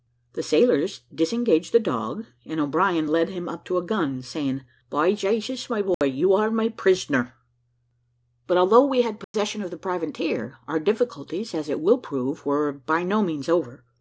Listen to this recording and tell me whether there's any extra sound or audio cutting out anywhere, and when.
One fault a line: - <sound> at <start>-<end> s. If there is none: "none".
- dropout at 5.9-6.0 s
- dropout at 9.2-9.3 s